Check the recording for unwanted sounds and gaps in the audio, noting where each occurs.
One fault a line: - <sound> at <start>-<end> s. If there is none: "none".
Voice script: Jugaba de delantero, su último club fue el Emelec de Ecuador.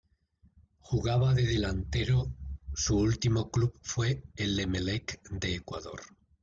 none